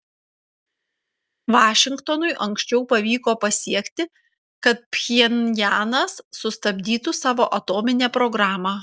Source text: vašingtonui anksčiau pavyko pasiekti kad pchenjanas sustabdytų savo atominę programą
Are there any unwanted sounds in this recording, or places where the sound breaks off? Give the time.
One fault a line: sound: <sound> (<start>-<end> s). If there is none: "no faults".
no faults